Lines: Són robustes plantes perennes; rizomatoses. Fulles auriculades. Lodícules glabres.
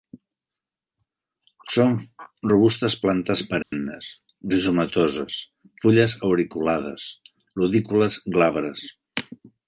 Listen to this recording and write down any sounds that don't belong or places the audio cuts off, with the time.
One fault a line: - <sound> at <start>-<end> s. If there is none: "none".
- dropout at 3.6-3.7 s